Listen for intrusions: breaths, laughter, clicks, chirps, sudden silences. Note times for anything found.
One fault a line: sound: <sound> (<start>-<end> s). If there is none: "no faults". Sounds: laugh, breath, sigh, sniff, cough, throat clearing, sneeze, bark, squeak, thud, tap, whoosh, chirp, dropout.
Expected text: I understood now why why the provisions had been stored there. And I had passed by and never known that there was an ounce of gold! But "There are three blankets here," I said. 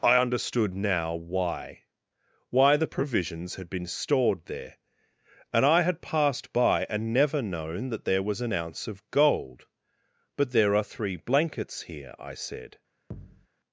sound: thud (13.1-13.5 s)